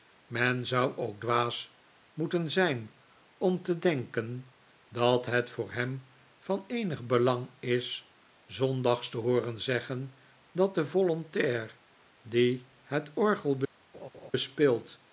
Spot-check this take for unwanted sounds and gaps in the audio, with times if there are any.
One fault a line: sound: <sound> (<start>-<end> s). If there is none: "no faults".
sound: laugh (13.9-14.3 s)